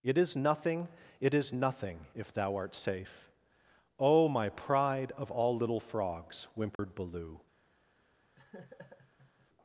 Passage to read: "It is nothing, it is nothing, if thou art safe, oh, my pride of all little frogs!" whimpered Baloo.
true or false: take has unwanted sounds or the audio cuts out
true